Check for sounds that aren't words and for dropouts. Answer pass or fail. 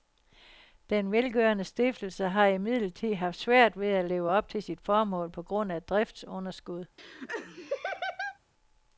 fail